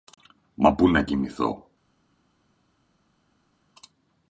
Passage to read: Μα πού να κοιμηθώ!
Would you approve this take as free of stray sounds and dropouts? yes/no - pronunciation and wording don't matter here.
yes